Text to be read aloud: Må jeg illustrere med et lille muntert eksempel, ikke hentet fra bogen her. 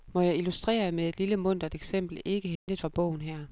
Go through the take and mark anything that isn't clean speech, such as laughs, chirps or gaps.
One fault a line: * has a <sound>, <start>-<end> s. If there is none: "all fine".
* has a dropout, 2.6-2.7 s